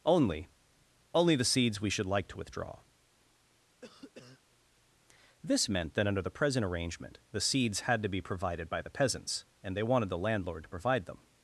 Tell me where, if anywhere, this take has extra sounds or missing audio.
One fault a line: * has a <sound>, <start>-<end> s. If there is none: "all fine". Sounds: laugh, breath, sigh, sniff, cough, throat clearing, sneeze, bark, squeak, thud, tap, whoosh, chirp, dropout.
* has a cough, 3.8-4.4 s